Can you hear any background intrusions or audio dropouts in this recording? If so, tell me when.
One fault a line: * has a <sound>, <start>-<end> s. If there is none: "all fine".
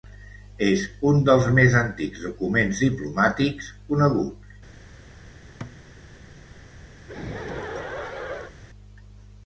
* has a thud, 5.6-5.8 s
* has a laugh, 7.0-8.5 s